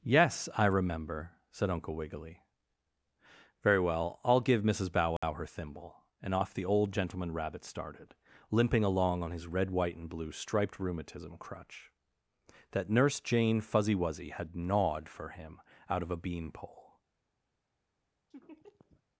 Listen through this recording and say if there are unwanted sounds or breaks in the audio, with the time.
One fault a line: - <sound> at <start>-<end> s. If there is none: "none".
- dropout at 5.2-5.2 s
- laugh at 18.3-19.0 s